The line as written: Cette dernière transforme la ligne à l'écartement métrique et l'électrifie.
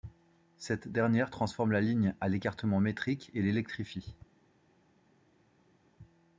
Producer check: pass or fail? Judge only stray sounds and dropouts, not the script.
pass